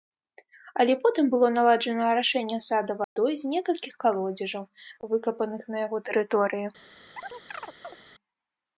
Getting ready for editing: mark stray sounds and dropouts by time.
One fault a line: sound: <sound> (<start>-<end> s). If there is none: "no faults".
sound: dropout (3.0-3.2 s)
sound: chirp (7.2-8.0 s)